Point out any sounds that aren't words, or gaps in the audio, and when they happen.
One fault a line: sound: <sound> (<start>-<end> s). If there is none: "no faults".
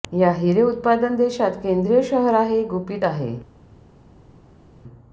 no faults